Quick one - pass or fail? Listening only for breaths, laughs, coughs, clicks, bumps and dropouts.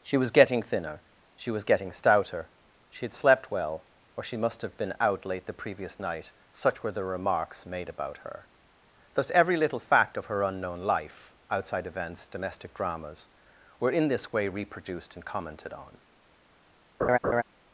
fail